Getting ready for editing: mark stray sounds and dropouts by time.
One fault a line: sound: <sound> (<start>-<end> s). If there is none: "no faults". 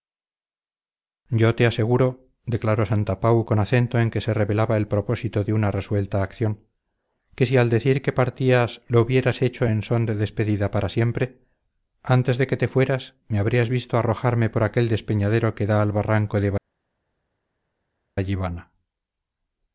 no faults